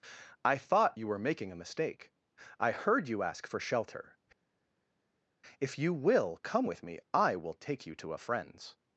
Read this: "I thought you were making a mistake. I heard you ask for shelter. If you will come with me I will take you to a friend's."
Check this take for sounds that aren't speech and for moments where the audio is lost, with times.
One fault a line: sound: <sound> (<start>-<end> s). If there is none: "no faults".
no faults